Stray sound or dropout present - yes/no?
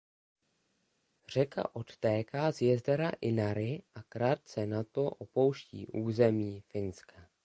no